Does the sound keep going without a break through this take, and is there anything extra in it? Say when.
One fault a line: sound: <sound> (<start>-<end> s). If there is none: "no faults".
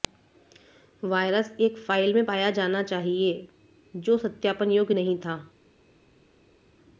no faults